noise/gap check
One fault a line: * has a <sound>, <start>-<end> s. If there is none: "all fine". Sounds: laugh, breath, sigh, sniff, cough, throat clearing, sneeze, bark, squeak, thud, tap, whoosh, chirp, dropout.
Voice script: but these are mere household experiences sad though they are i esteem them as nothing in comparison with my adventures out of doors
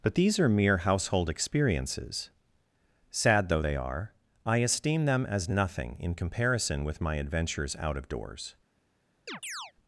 * has a chirp, 9.3-9.7 s